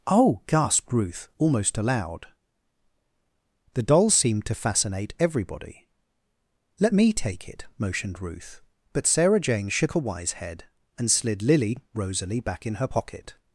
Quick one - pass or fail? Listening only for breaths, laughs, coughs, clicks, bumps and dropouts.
pass